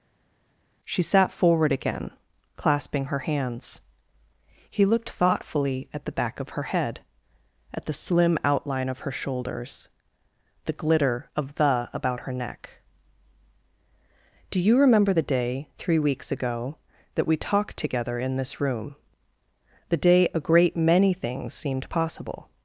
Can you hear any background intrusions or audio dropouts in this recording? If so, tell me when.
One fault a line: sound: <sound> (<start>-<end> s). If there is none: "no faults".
no faults